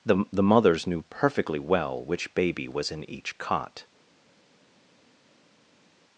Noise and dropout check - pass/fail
pass